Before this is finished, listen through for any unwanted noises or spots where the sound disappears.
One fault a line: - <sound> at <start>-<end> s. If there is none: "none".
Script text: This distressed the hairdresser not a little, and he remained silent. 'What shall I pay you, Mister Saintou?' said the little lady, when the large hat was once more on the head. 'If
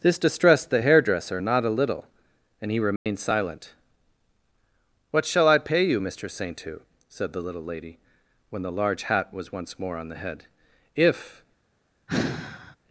- dropout at 3.0-3.1 s
- sigh at 12.1-12.8 s